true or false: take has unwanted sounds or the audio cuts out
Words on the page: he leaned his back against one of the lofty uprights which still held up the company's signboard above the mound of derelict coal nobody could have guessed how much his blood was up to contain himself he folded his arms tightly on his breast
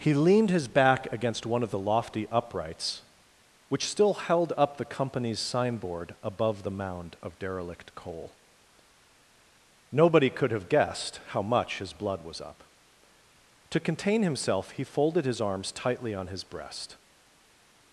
false